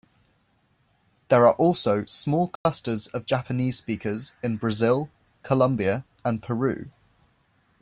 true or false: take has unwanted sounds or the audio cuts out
true